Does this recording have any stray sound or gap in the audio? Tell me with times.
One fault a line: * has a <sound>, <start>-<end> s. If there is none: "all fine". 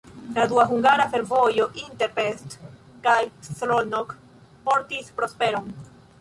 all fine